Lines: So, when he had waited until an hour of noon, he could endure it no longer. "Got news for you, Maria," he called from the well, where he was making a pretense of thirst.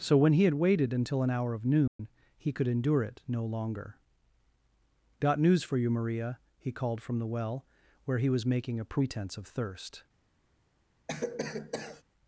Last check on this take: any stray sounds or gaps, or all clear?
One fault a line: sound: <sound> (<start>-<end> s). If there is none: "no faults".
sound: dropout (1.9-2.0 s)
sound: cough (11.1-12.0 s)